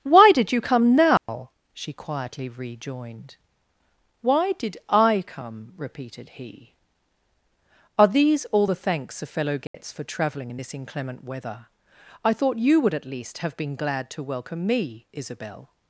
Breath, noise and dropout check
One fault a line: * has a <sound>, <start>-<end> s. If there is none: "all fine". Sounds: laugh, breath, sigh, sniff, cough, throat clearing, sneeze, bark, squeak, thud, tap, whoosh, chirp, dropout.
* has a dropout, 1.2-1.3 s
* has a dropout, 9.7-9.7 s